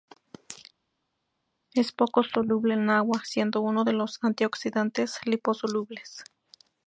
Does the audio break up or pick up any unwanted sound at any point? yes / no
no